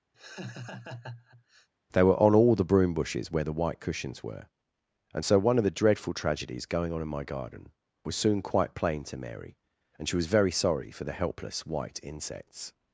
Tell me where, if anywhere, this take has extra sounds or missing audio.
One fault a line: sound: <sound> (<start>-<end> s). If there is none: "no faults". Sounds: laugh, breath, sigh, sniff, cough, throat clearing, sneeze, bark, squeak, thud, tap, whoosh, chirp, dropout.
sound: laugh (0.1-1.7 s)